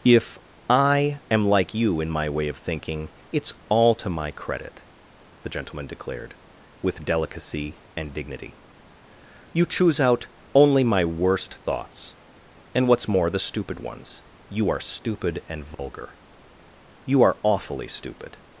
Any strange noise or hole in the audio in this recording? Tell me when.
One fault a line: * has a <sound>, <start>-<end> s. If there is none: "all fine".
* has a dropout, 15.7-15.8 s